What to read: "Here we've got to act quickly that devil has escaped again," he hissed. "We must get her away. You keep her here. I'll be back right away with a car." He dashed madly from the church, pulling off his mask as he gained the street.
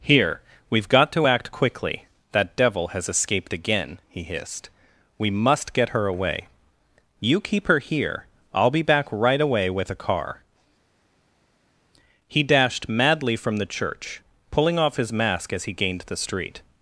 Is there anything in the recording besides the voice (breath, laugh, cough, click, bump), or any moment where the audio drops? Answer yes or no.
no